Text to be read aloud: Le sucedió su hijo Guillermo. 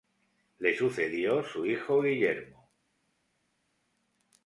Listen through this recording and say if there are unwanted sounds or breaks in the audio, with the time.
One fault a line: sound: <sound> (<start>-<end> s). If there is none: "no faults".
no faults